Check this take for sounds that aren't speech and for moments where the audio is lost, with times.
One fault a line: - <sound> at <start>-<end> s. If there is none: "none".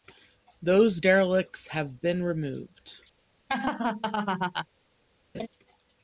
- laugh at 3.5-4.7 s
- laugh at 5.3-5.5 s